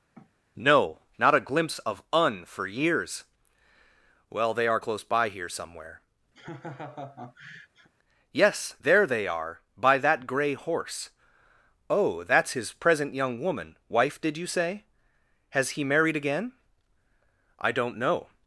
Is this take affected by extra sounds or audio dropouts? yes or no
yes